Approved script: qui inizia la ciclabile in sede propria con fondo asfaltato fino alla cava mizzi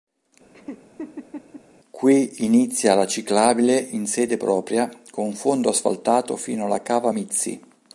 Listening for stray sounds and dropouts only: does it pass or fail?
fail